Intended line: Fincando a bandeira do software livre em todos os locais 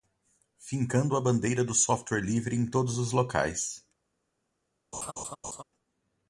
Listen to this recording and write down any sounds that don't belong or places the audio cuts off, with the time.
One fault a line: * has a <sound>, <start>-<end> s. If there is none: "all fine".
* has a laugh, 4.9-5.6 s